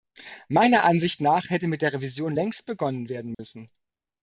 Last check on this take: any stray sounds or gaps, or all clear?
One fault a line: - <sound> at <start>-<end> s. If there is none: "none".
- dropout at 3.3-3.4 s